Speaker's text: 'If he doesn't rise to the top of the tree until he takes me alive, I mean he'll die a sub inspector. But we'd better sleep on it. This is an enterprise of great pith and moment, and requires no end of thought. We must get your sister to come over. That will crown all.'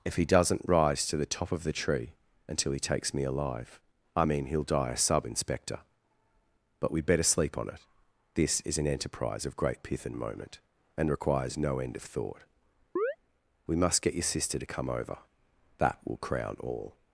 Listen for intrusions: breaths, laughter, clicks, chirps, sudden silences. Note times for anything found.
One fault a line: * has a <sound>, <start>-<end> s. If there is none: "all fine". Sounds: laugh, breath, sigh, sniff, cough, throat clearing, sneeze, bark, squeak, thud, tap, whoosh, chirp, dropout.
* has a chirp, 13.0-13.2 s